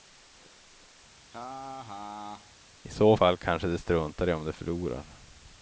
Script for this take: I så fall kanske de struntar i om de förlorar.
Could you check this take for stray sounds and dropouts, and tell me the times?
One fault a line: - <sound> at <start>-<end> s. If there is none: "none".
- laugh at 1.2-2.6 s